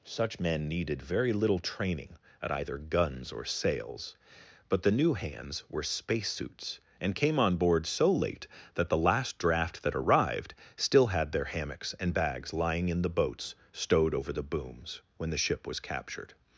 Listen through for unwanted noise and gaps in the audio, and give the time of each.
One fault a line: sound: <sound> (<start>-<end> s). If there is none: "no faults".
no faults